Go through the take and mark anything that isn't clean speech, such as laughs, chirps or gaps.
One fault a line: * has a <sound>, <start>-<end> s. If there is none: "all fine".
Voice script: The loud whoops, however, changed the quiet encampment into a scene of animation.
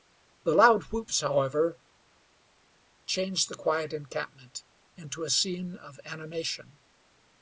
all fine